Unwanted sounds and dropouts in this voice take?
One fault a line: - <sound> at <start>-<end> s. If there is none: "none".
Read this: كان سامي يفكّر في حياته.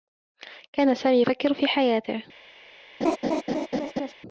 - laugh at 3.0-4.1 s